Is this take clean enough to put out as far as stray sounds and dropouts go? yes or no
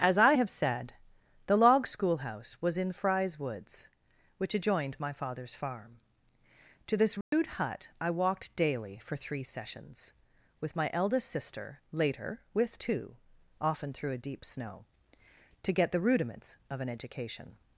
no